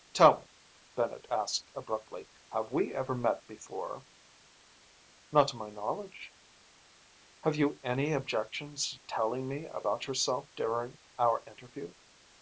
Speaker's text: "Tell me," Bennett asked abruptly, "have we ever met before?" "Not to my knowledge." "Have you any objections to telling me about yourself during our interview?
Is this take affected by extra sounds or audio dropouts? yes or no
no